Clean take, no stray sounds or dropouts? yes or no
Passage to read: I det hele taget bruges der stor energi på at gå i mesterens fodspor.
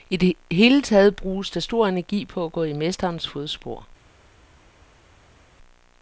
yes